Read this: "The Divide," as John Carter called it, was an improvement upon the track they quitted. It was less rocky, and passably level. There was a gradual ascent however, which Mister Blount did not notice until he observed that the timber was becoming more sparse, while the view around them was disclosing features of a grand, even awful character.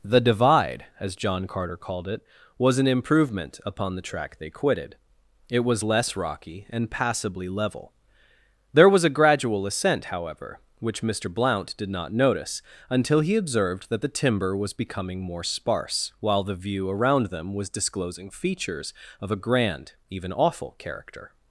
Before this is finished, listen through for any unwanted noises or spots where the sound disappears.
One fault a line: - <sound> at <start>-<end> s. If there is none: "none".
none